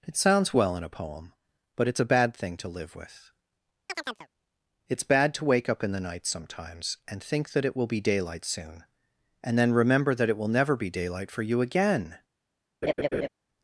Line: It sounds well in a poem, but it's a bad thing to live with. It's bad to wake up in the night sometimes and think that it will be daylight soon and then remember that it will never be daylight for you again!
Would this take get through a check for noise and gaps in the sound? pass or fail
fail